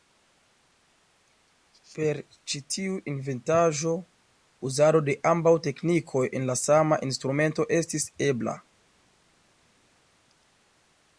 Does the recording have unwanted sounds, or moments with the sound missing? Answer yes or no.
no